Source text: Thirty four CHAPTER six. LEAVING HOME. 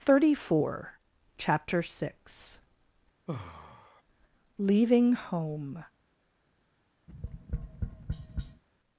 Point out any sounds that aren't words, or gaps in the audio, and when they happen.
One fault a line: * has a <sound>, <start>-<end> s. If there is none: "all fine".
* has a sigh, 3.3-4.0 s
* has a tap, 7.1-8.6 s